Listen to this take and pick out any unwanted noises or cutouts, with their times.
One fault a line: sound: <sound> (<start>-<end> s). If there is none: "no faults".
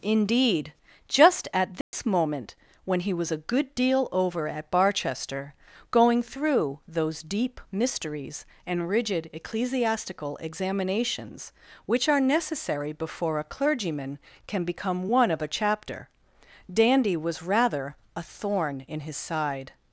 sound: dropout (1.8-1.9 s)